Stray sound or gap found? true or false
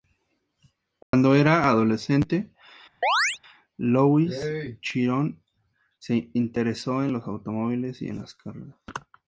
true